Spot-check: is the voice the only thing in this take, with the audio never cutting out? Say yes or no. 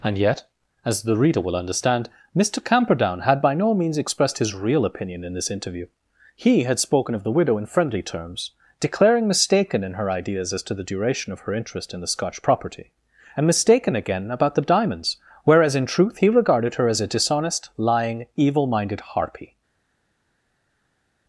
yes